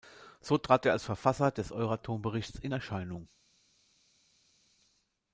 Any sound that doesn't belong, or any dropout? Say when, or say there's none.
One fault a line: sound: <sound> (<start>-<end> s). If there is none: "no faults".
no faults